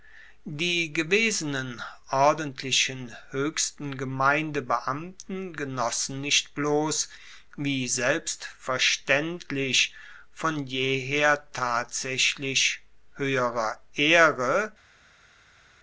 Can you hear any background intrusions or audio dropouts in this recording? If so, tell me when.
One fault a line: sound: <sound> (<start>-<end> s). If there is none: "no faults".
no faults